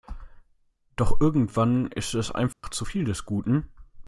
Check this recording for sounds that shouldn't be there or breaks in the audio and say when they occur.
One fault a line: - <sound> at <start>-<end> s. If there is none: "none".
- dropout at 2.5-2.6 s